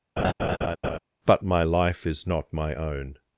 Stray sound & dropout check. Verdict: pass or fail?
fail